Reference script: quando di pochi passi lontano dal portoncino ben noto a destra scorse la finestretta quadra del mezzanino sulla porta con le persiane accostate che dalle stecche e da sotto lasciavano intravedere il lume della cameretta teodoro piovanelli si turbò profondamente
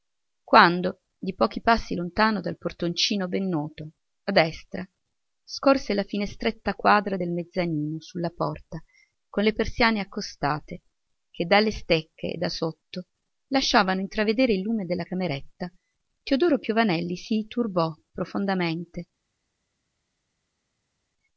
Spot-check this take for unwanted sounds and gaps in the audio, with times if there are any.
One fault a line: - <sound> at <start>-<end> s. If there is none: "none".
none